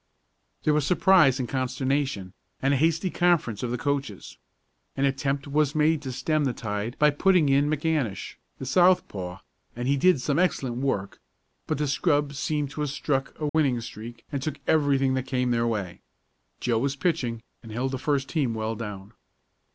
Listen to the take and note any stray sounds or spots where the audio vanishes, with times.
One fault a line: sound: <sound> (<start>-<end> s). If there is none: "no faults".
sound: dropout (13.5-13.5 s)